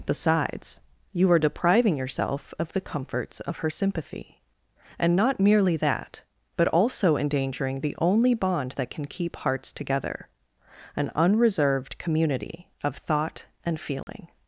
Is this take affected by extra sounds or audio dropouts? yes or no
yes